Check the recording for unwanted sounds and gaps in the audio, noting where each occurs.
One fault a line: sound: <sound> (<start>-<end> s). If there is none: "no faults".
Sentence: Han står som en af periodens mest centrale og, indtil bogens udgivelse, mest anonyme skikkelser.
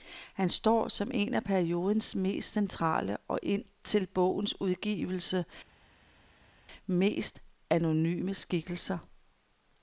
no faults